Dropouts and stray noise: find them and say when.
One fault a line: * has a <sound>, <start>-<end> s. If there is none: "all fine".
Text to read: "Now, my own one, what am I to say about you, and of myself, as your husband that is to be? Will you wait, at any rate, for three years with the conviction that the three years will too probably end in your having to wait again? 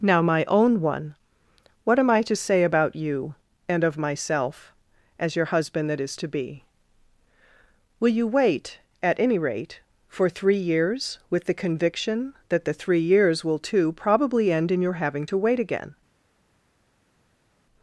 all fine